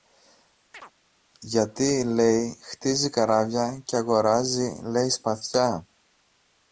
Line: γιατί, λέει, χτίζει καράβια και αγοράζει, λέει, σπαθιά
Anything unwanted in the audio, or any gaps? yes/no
yes